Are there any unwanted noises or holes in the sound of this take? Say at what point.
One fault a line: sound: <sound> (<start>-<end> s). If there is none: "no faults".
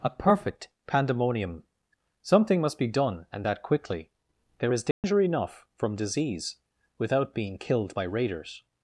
sound: dropout (4.9-5.0 s)